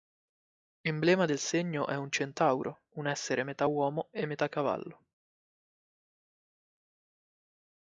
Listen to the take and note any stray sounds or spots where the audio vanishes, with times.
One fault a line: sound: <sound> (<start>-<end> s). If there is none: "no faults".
no faults